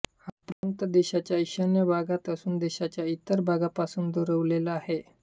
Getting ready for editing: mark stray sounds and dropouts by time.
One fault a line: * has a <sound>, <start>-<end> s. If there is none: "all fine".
* has a dropout, 0.5-0.6 s